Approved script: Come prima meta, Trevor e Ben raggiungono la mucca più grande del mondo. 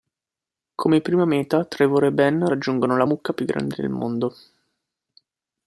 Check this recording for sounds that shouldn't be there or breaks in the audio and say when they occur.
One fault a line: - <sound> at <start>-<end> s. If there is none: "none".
none